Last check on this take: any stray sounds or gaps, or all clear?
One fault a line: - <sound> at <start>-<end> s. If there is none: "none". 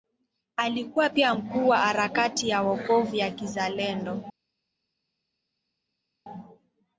none